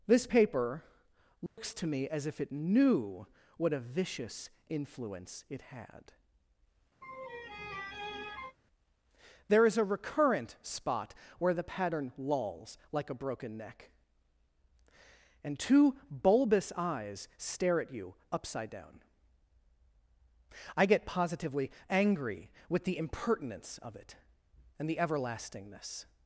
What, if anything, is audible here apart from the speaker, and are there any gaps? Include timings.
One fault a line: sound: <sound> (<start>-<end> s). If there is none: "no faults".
sound: dropout (1.5-1.6 s)
sound: laugh (7.0-8.6 s)